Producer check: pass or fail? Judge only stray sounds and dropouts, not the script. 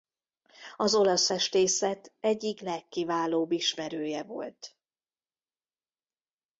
pass